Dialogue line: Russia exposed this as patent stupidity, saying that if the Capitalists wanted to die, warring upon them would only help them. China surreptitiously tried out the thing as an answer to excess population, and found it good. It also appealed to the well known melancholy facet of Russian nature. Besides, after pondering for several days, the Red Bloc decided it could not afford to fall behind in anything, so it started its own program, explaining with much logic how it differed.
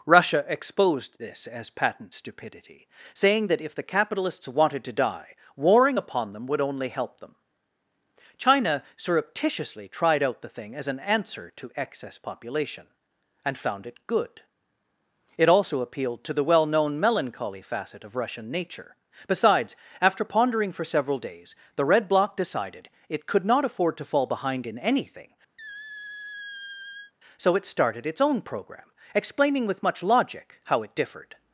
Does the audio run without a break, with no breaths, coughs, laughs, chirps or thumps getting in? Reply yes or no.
no